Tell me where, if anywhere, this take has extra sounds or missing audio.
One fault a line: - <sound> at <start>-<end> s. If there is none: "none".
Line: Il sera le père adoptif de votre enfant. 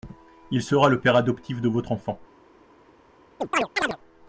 - chirp at 3.4-4.0 s